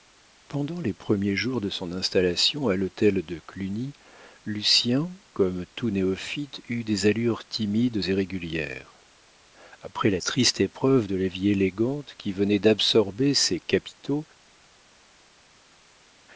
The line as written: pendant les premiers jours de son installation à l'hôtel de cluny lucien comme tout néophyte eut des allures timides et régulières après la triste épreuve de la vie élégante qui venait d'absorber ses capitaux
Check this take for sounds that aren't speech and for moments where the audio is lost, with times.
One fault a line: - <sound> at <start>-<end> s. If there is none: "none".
none